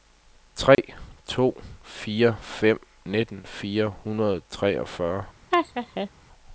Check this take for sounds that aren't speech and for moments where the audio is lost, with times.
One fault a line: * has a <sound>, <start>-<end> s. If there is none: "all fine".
* has a dropout, 0.7-0.8 s
* has a laugh, 5.5-6.1 s